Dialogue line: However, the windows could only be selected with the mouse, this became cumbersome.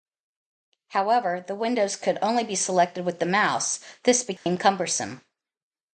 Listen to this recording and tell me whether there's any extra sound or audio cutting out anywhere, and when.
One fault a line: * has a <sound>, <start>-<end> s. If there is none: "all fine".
* has a dropout, 4.4-4.5 s